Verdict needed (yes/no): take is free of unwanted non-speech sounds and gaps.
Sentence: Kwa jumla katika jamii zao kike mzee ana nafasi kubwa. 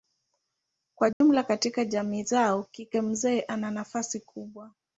no